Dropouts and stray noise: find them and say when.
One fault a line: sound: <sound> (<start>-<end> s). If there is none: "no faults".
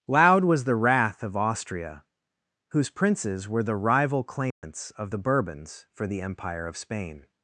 sound: dropout (4.5-4.6 s)